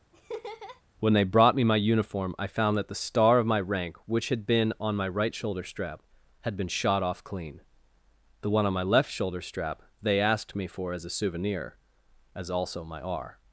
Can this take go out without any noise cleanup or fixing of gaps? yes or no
no